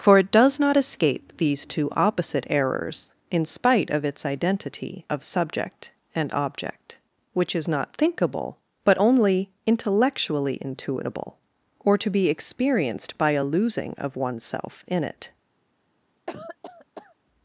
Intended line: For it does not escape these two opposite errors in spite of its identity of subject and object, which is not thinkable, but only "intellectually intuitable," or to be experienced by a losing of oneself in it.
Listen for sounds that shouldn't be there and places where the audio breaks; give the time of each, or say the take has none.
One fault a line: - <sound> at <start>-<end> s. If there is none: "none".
- cough at 16.3-17.2 s